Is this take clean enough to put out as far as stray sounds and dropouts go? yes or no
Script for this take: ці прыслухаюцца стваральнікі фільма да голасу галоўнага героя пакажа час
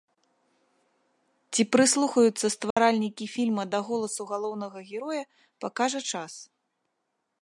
no